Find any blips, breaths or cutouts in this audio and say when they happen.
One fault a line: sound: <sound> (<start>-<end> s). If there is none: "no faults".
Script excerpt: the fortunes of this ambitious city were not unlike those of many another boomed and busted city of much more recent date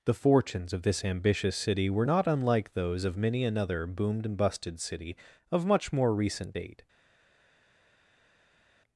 no faults